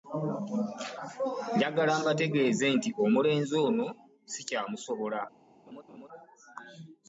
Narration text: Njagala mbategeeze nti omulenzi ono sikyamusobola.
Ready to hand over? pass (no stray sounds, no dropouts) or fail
fail